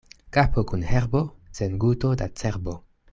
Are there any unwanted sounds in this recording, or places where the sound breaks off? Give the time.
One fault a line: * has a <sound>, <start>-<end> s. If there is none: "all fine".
all fine